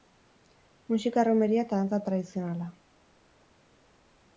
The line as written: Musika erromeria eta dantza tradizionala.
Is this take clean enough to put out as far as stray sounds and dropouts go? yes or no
yes